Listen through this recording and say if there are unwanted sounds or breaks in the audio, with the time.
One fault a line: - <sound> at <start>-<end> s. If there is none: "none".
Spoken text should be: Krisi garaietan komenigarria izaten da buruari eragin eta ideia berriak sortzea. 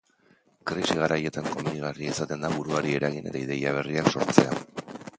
none